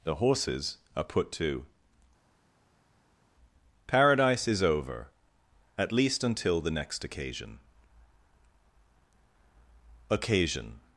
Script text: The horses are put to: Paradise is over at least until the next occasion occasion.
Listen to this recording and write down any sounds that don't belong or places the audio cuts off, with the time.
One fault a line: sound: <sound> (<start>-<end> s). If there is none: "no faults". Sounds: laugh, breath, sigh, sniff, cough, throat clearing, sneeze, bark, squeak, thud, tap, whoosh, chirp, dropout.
no faults